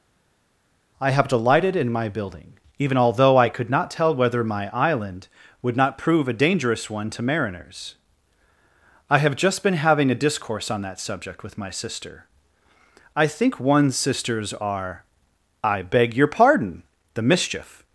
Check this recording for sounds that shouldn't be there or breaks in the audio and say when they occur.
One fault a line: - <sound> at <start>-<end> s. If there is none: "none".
none